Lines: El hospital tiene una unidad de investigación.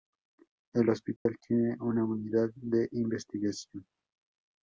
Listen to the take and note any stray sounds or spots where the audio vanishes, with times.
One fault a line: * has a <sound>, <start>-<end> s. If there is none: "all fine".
* has a dropout, 1.2-1.3 s